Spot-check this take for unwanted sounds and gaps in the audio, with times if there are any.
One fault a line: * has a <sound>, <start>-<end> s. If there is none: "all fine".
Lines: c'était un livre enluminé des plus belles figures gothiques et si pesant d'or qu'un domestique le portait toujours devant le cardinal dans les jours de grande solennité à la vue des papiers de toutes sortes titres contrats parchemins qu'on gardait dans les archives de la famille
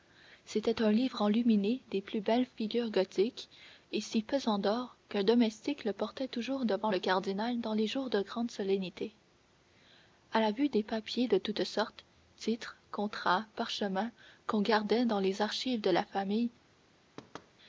* has a thud, 17.2-17.5 s